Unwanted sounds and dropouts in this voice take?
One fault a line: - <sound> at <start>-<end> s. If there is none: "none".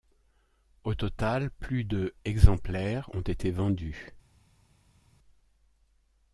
none